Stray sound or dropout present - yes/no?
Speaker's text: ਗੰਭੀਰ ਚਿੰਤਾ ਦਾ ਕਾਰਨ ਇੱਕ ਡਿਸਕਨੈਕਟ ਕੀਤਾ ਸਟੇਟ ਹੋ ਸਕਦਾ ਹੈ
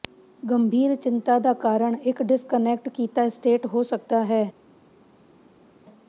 no